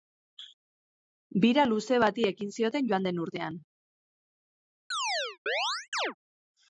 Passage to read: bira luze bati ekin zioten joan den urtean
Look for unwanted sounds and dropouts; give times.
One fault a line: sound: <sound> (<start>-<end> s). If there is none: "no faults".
sound: chirp (4.9-6.1 s)